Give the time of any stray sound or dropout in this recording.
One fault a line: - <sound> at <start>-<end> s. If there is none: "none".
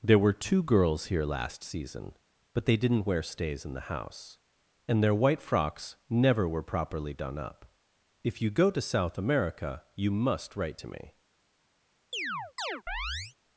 - chirp at 12.1-13.4 s